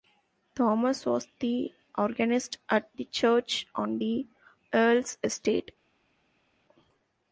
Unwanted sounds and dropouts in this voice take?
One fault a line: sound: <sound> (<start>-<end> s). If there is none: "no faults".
no faults